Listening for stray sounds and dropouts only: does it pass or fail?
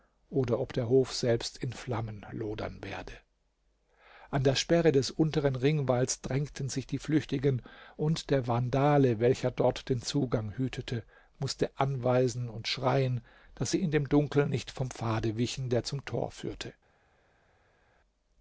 pass